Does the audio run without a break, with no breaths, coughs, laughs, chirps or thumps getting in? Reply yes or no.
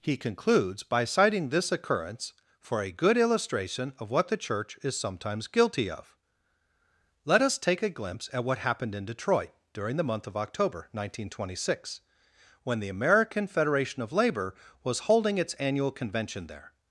yes